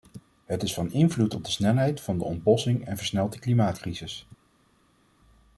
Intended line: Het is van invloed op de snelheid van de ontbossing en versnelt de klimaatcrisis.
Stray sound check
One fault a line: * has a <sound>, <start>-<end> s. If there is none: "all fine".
all fine